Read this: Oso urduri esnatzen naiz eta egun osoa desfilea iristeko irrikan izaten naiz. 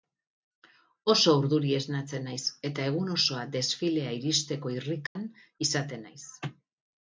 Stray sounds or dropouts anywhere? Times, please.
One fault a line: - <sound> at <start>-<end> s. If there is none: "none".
- dropout at 5.1-5.2 s